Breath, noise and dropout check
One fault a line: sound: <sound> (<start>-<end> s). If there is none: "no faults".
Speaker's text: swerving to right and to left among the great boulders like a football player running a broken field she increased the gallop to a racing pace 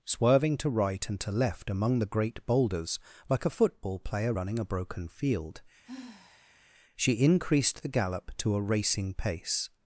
sound: sigh (5.8-6.7 s)